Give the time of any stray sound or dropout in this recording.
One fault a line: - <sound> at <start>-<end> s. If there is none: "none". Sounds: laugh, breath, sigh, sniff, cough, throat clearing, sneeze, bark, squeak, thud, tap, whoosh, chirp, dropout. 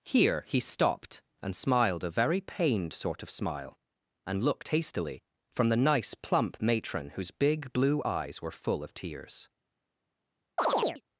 - chirp at 10.6-11.0 s